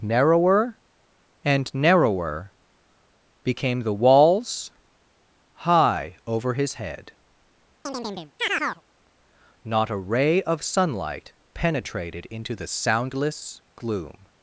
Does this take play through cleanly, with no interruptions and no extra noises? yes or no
no